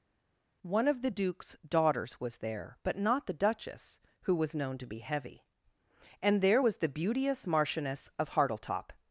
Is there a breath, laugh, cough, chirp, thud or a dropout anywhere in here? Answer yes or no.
no